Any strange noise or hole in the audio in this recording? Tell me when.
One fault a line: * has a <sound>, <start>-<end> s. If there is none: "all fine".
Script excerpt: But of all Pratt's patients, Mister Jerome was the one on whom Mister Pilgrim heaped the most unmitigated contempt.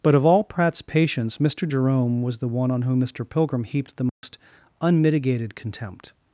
* has a dropout, 4.1-4.2 s